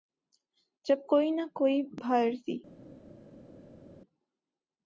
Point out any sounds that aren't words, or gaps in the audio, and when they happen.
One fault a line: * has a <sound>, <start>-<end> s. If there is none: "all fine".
all fine